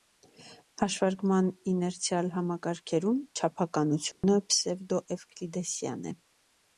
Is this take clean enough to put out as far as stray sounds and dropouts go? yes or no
no